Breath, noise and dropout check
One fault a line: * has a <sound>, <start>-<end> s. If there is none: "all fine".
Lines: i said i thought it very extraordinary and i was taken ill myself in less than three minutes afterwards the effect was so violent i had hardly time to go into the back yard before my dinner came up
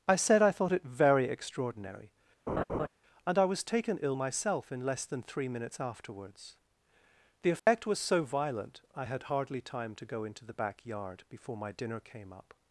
* has a laugh, 2.5-2.9 s
* has a dropout, 7.6-7.7 s